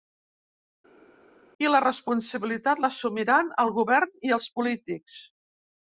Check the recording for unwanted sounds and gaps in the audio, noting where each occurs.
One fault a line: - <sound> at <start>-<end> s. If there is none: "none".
none